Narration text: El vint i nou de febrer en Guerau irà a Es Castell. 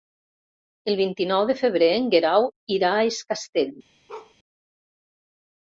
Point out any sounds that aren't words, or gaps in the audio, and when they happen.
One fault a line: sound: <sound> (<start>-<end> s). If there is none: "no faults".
sound: bark (4.1-4.3 s)